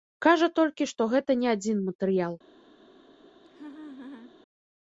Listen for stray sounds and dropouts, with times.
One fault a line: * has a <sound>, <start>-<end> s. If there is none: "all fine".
* has a laugh, 3.4-4.3 s